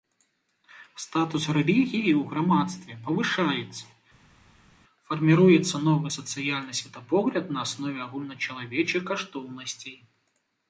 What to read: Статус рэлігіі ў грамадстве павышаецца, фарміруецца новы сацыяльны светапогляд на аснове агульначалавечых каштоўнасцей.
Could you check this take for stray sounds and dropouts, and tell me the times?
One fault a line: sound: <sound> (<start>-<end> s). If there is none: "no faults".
no faults